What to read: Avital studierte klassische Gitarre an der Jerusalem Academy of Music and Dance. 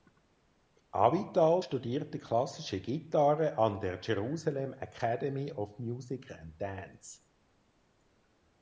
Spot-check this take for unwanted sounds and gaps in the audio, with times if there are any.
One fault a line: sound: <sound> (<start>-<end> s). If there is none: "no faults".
no faults